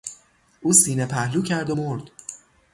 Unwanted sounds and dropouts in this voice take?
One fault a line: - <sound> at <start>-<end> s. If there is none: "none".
none